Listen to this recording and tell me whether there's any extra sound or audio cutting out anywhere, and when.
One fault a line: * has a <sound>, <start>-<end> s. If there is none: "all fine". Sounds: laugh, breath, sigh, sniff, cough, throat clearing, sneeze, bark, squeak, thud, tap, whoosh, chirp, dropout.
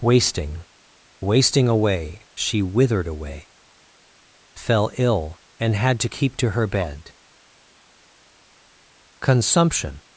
all fine